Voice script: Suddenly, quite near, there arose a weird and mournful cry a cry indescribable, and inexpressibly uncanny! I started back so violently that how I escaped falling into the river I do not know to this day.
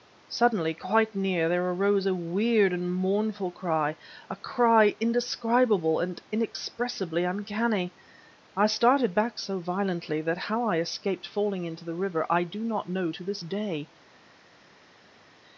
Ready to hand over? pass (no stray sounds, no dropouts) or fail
pass